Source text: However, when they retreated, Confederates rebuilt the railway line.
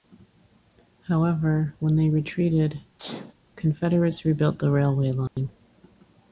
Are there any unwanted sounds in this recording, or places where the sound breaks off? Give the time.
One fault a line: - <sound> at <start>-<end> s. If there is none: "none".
- sneeze at 3.0-3.3 s
- dropout at 5.3-5.4 s